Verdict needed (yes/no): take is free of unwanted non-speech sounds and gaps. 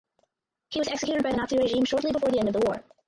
yes